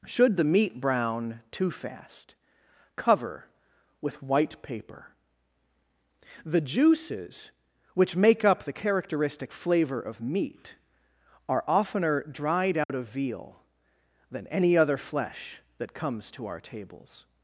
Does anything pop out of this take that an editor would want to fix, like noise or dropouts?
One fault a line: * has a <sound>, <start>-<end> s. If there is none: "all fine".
* has a dropout, 12.8-12.9 s